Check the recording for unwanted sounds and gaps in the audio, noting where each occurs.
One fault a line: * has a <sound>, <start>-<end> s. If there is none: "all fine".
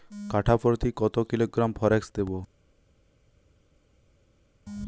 all fine